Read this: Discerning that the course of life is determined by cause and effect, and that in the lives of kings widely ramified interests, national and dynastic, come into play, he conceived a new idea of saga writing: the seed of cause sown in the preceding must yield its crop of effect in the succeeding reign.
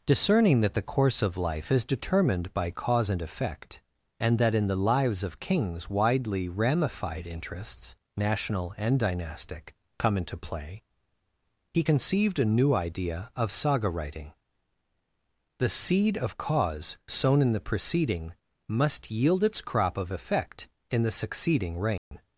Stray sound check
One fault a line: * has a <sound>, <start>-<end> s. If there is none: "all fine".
* has a dropout, 22.0-22.1 s